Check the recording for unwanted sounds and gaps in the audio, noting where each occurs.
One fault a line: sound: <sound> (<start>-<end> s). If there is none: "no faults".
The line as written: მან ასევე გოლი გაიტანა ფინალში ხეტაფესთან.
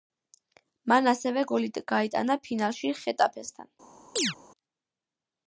sound: chirp (4.2-4.4 s)